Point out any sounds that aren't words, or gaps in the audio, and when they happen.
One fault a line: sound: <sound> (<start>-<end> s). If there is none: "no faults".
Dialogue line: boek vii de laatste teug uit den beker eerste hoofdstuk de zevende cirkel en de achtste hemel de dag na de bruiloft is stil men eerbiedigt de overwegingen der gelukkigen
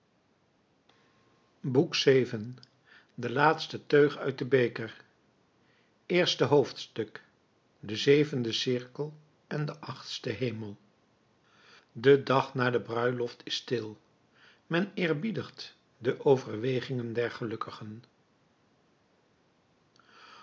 no faults